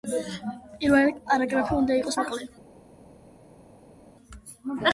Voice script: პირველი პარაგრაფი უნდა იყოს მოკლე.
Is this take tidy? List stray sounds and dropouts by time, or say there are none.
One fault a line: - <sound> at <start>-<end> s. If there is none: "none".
none